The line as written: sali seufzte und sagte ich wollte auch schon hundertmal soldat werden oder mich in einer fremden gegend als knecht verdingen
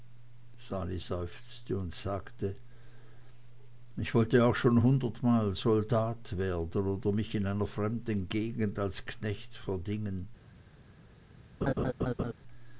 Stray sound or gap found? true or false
true